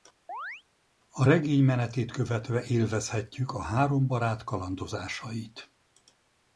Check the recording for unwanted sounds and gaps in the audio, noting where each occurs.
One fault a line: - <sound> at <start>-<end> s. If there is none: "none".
- chirp at 0.3-0.6 s